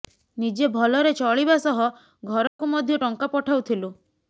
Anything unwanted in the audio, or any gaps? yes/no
yes